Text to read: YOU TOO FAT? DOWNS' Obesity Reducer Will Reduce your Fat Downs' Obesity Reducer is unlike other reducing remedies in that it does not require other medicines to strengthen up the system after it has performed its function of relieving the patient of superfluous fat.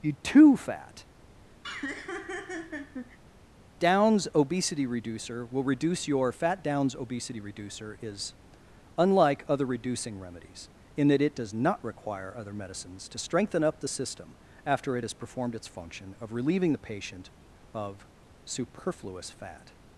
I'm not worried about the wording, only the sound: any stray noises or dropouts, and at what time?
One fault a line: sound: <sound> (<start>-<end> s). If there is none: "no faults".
sound: laugh (1.6-3.2 s)